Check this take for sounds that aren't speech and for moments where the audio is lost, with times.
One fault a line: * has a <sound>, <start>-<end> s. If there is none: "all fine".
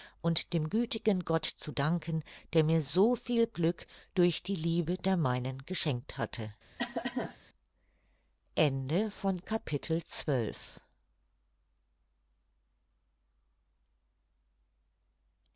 * has a cough, 6.8-7.4 s